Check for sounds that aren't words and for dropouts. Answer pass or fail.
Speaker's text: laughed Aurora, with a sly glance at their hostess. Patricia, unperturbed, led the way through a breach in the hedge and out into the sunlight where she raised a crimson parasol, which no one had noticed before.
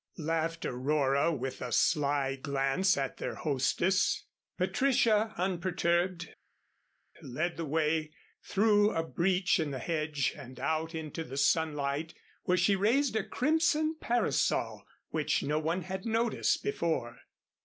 pass